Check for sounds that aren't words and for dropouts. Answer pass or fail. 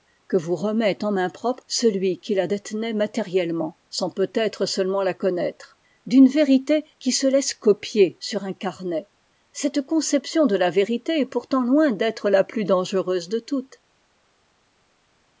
pass